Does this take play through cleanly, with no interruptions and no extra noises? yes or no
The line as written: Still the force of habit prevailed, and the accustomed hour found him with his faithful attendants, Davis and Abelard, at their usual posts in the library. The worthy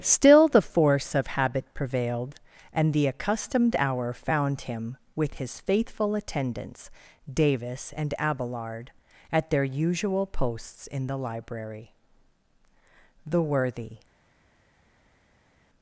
yes